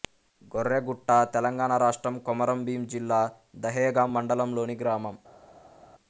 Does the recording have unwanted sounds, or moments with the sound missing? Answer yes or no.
no